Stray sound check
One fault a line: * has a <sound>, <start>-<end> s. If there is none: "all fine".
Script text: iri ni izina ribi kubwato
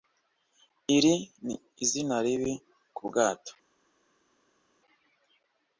all fine